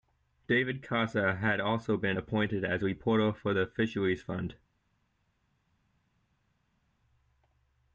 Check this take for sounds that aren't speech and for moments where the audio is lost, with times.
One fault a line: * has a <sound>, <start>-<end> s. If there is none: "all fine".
all fine